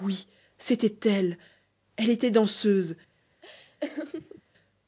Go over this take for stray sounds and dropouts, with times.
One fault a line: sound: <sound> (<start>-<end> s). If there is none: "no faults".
sound: laugh (3.4-4.4 s)